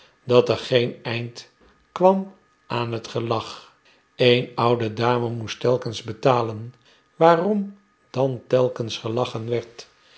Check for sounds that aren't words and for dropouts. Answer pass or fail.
pass